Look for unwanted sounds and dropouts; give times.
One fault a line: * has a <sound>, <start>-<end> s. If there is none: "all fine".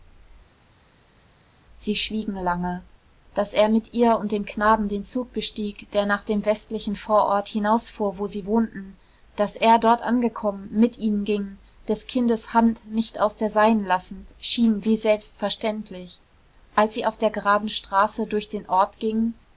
all fine